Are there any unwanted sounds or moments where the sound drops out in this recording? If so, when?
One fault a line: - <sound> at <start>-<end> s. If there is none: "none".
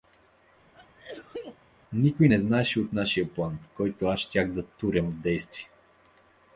- sneeze at 0.7-1.6 s